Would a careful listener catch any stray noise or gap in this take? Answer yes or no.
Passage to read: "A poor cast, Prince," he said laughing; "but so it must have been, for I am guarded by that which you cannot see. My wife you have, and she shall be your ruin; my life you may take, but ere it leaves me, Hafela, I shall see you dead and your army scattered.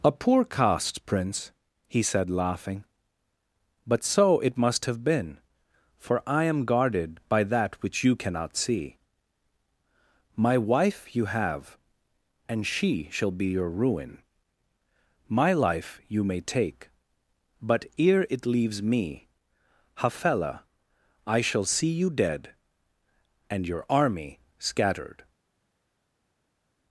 no